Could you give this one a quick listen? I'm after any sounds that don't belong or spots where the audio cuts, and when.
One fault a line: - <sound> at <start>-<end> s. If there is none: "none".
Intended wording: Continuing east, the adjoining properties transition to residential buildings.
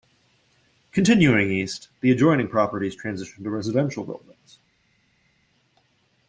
none